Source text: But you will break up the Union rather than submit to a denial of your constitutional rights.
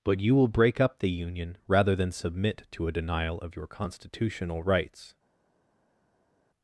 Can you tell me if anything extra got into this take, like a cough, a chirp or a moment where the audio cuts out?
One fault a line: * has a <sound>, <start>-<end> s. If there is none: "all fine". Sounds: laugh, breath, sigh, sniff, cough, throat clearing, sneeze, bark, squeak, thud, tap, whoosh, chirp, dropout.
all fine